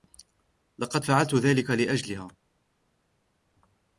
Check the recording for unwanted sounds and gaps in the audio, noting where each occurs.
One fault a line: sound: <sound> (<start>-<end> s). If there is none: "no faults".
no faults